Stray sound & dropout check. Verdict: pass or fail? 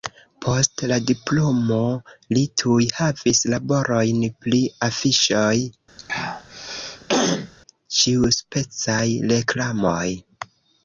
fail